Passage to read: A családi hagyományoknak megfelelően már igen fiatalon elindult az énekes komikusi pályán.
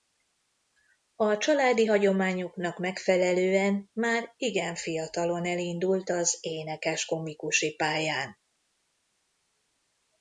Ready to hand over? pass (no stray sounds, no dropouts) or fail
pass